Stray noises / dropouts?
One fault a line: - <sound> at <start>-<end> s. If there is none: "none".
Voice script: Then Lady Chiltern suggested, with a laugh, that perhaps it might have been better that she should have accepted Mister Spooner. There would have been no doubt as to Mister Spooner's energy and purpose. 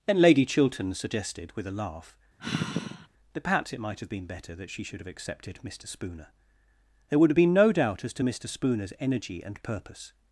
- sigh at 2.4-3.1 s